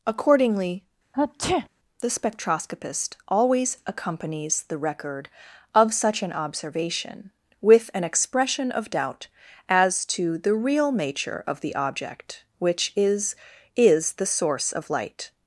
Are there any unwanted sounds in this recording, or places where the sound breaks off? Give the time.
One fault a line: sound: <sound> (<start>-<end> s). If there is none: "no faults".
sound: sneeze (1.1-1.7 s)